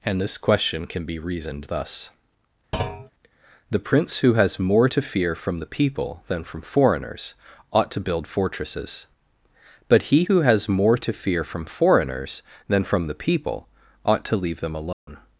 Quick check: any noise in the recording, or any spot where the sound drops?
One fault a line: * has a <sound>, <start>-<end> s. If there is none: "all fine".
* has a thud, 2.7-3.1 s
* has a dropout, 14.9-15.1 s